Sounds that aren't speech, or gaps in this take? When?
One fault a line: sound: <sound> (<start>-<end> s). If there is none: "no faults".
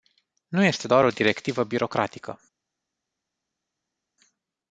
no faults